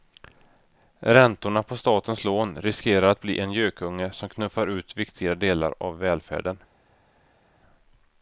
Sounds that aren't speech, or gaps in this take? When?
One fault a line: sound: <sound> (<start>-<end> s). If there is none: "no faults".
no faults